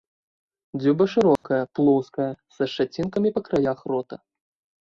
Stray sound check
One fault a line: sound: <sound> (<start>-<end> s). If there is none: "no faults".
sound: dropout (1.4-1.4 s)